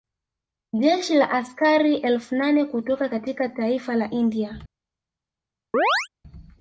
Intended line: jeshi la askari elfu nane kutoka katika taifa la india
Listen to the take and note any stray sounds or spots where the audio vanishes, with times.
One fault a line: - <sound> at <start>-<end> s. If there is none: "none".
- chirp at 5.7-6.1 s